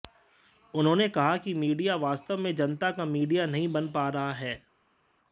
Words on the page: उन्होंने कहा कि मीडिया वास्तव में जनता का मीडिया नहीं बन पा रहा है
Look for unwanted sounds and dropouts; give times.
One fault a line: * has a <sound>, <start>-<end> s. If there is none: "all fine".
all fine